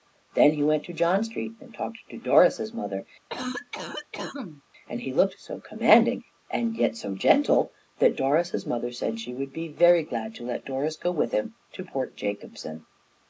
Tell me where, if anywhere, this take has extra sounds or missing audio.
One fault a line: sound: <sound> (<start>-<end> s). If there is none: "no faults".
sound: cough (3.3-4.6 s)